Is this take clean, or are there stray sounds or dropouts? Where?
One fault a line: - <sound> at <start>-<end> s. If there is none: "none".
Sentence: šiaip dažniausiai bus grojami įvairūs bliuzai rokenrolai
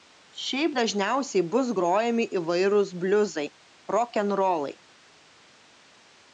none